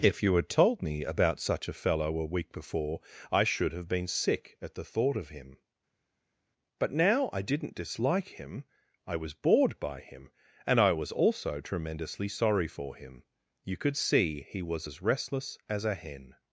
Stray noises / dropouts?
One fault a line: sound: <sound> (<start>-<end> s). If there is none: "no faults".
no faults